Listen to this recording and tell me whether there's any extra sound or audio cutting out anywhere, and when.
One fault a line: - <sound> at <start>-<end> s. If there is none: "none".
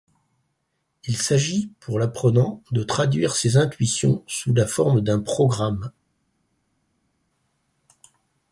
none